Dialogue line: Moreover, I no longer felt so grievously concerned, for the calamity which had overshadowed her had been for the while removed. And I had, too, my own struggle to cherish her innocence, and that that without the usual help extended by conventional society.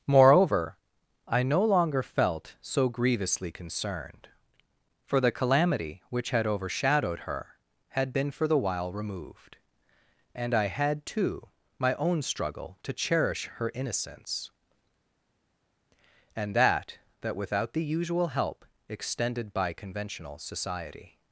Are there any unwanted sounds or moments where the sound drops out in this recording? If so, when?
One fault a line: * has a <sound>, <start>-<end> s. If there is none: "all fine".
all fine